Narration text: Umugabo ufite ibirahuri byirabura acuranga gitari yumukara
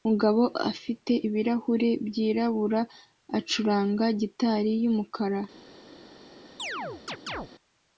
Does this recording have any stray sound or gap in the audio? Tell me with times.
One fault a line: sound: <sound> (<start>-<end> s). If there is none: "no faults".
sound: chirp (6.6-7.5 s)